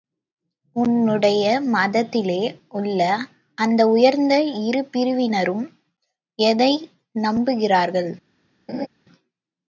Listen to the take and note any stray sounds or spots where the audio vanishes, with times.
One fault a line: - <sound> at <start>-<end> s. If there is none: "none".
- laugh at 8.7-8.9 s